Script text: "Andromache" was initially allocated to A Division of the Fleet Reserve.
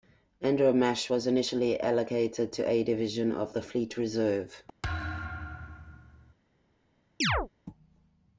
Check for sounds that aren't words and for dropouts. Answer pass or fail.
fail